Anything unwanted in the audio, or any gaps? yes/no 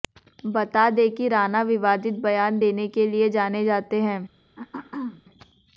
yes